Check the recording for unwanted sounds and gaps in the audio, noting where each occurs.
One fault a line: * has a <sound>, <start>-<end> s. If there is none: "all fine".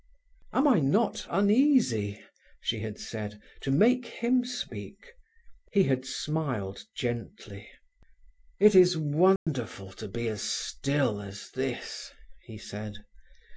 * has a dropout, 9.4-9.5 s